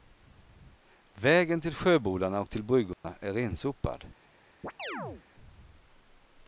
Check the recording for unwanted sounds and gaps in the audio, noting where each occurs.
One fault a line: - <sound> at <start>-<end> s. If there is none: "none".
- dropout at 2.9-3.0 s
- chirp at 4.6-5.2 s